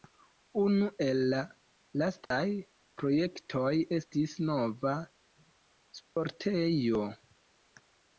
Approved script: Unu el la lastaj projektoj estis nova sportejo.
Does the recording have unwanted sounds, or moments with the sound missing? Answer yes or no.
yes